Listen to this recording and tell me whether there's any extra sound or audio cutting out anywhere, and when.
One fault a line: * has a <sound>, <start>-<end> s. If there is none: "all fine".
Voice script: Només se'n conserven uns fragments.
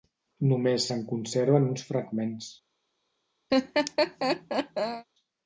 * has a laugh, 3.5-5.1 s